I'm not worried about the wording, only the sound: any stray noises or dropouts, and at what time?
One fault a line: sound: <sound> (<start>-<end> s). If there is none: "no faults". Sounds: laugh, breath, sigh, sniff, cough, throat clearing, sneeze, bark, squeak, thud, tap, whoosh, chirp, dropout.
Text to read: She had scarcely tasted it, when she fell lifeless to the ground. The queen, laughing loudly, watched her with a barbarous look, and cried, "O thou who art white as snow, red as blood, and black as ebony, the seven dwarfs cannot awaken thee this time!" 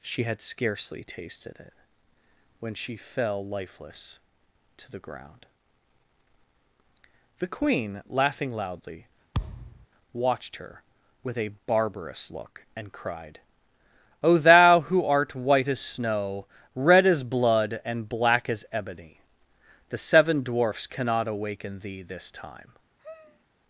sound: thud (9.3-9.9 s)
sound: sigh (23.0-23.4 s)